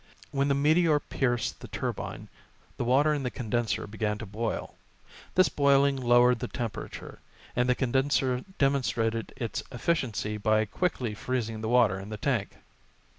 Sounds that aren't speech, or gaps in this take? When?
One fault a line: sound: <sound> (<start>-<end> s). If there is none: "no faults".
no faults